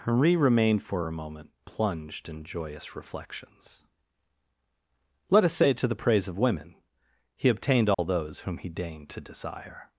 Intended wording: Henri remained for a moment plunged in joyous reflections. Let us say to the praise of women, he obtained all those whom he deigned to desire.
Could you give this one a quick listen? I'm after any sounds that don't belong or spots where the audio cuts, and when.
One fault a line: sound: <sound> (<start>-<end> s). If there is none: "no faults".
sound: dropout (7.9-8.0 s)